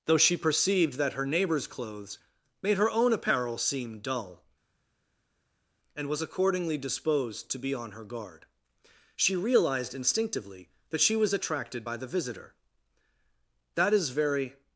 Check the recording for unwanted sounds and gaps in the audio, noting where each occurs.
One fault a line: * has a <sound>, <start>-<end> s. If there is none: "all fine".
all fine